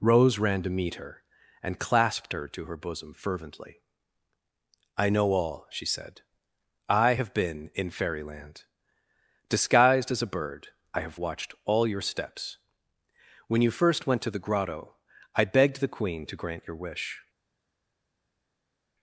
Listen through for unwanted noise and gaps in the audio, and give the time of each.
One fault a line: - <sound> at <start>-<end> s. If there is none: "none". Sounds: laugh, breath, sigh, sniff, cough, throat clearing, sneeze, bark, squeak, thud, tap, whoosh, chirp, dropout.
none